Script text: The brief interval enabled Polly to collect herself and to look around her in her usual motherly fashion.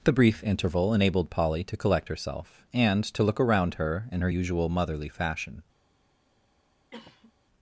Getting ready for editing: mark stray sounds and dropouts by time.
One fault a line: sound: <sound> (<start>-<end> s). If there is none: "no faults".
sound: cough (6.9-7.3 s)